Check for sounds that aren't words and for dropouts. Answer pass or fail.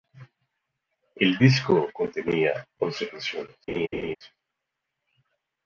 fail